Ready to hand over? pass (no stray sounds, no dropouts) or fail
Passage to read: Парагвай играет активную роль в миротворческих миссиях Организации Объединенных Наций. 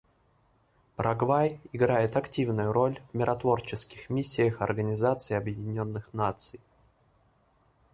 pass